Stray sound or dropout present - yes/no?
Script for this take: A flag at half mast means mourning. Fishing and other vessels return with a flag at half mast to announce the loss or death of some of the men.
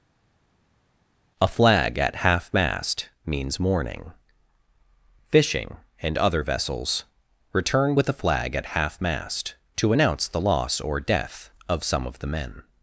no